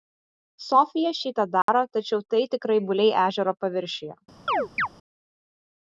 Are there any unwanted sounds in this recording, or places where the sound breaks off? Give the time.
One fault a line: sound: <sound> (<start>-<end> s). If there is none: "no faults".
sound: dropout (1.6-1.7 s)
sound: chirp (4.5-4.9 s)